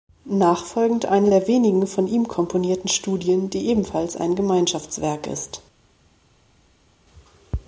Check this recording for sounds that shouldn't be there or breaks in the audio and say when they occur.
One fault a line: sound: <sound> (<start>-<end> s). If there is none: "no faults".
no faults